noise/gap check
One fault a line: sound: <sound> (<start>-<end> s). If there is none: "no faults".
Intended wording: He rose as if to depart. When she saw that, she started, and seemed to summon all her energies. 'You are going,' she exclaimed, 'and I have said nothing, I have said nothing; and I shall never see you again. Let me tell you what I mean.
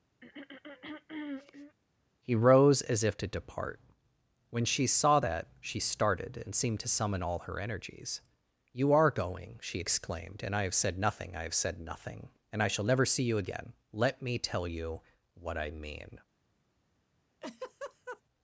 sound: throat clearing (0.2-1.8 s)
sound: laugh (17.4-18.2 s)